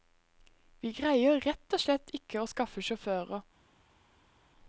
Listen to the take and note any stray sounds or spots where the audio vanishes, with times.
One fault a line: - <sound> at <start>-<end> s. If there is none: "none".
none